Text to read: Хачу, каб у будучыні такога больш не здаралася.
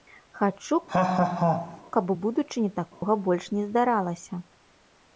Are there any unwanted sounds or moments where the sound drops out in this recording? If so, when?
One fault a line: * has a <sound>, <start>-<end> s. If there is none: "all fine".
* has a laugh, 0.9-1.8 s
* has a dropout, 2.9-3.0 s